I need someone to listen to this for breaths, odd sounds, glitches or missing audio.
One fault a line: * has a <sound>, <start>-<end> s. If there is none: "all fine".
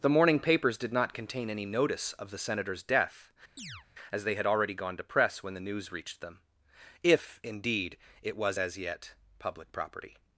* has a chirp, 3.6-3.9 s